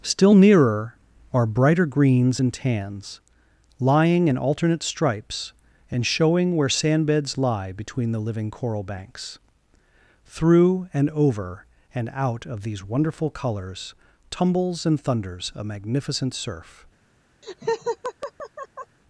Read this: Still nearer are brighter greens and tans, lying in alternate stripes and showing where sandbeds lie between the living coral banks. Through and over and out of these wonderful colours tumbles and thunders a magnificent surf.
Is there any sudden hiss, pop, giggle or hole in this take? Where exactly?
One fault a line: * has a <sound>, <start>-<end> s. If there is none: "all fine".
* has a laugh, 17.4-19.0 s